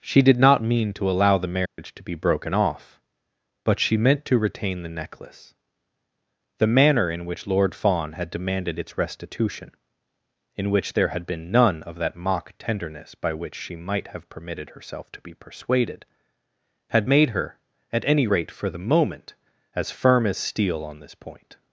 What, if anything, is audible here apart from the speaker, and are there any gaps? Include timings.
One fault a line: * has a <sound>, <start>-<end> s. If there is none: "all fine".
* has a dropout, 1.7-1.8 s